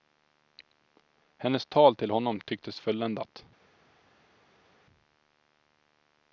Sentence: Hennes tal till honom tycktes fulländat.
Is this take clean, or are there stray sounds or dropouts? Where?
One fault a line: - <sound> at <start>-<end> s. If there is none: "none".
none